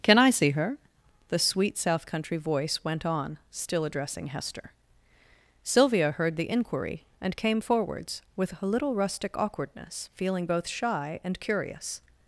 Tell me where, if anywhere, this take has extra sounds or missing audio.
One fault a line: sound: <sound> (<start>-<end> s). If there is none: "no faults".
no faults